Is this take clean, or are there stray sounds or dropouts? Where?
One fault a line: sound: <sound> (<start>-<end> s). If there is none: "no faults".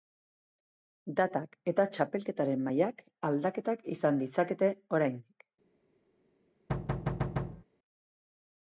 sound: thud (6.7-7.6 s)